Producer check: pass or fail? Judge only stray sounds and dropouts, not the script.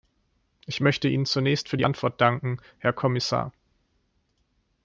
pass